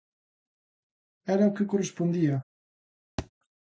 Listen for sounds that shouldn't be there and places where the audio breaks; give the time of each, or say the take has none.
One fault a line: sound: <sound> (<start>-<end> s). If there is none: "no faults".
sound: thud (3.2-3.3 s)